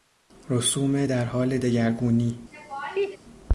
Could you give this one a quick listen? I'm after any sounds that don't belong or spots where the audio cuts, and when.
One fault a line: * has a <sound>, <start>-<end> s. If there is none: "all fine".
* has a laugh, 2.5-3.2 s